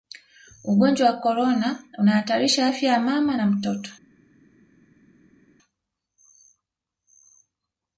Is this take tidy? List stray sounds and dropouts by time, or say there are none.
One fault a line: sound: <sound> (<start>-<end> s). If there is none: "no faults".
no faults